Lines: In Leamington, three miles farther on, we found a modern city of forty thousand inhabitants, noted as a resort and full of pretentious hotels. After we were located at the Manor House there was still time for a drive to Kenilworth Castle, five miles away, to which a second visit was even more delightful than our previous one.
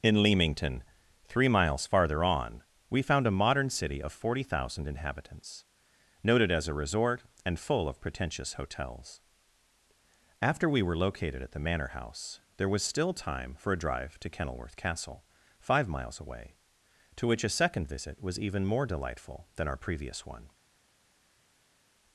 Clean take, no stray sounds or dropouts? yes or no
yes